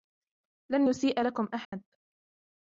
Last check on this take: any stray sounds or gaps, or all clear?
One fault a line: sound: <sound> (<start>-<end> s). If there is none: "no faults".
sound: dropout (1.6-1.7 s)